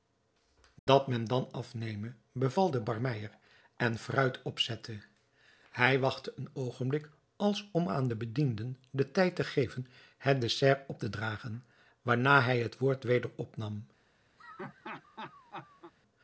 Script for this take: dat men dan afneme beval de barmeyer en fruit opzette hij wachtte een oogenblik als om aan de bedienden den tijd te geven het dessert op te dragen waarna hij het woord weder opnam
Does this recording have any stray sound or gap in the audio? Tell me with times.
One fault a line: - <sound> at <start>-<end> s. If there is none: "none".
- dropout at 0.8-0.9 s
- laugh at 14.4-15.9 s